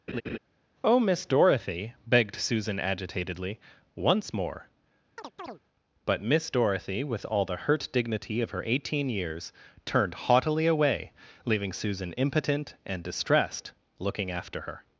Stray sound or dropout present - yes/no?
yes